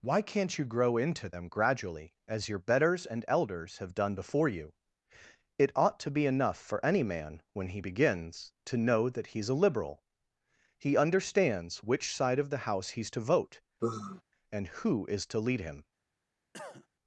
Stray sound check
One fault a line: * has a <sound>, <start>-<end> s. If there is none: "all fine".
* has a sigh, 13.8-14.2 s
* has a cough, 16.5-16.9 s